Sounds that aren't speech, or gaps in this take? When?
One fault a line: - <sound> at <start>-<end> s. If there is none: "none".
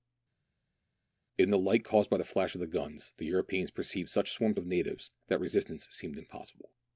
none